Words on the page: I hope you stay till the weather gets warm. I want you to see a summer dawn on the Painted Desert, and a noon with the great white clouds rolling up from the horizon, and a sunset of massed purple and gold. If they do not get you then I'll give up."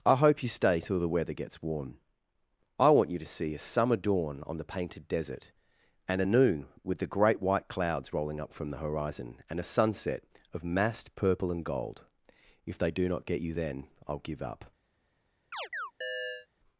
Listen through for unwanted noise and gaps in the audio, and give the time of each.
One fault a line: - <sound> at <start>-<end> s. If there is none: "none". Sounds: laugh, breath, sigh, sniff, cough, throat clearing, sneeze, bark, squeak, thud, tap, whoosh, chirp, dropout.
- chirp at 15.5-16.5 s